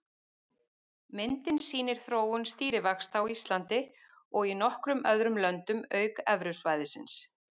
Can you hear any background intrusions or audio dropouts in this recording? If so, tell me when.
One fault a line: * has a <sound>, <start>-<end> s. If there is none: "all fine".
all fine